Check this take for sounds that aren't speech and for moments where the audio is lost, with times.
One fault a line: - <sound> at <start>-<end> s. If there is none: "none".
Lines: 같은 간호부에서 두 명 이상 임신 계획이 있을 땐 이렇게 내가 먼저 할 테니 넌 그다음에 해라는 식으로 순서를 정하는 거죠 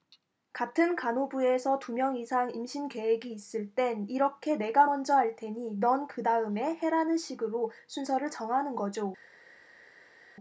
none